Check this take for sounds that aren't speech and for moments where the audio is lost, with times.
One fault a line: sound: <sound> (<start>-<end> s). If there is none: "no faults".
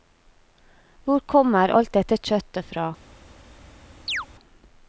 sound: chirp (4.1-4.3 s)